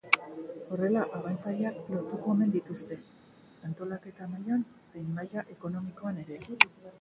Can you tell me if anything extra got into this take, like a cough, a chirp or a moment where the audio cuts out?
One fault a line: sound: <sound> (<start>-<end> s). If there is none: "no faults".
no faults